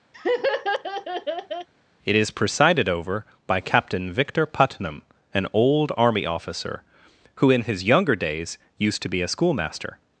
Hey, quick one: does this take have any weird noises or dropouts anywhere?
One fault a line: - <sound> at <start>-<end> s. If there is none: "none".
- laugh at 0.1-1.7 s